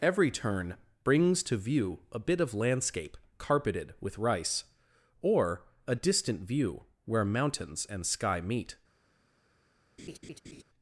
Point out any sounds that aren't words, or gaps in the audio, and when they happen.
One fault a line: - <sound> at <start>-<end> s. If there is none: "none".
- laugh at 10.0-10.6 s